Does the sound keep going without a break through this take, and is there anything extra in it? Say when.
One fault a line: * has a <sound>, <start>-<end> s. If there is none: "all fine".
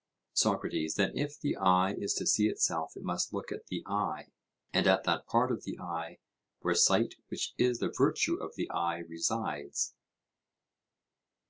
all fine